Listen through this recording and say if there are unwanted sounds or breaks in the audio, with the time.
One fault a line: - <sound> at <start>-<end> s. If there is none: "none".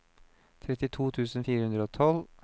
none